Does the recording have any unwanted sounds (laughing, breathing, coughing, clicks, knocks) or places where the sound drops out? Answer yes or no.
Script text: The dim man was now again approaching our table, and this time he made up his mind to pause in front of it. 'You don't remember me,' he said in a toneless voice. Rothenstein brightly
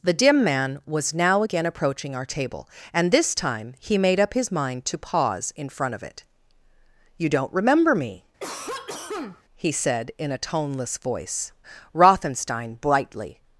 yes